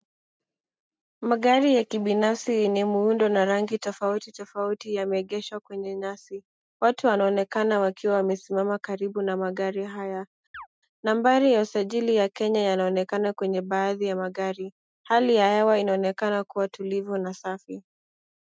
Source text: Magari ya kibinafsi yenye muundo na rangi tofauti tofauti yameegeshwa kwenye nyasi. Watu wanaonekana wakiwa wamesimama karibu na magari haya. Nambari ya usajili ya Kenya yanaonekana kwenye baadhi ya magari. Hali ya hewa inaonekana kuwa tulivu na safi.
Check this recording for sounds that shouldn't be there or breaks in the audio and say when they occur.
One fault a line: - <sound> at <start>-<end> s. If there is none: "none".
- chirp at 10.5-10.7 s